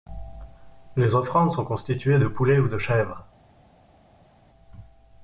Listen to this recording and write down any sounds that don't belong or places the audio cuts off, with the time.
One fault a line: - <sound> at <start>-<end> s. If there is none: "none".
none